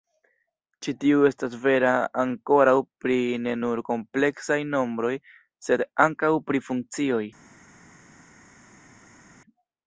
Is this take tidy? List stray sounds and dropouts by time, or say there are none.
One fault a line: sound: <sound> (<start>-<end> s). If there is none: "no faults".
no faults